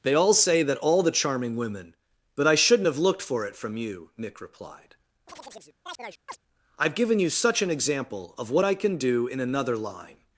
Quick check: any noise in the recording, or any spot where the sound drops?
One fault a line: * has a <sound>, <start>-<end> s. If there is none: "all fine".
* has a chirp, 5.3-6.4 s